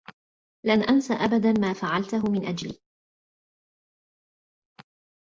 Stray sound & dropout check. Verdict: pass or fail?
pass